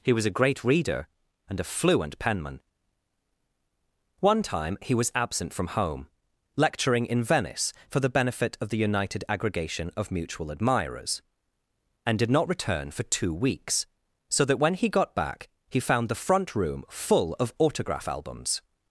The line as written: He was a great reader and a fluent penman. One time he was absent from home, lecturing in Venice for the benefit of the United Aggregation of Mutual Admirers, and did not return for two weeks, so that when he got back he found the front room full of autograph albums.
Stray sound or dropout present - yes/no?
no